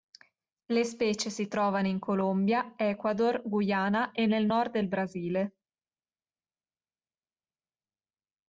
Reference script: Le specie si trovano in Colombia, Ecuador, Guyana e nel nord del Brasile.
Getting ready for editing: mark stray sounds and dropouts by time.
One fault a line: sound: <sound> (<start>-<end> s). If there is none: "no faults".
no faults